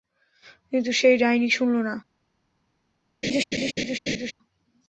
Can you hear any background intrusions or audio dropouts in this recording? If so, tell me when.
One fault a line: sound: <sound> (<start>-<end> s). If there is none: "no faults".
sound: laugh (3.2-4.3 s)